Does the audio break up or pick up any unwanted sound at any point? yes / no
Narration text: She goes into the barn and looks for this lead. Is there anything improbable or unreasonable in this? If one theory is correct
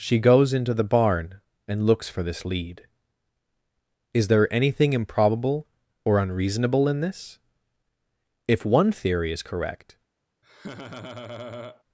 yes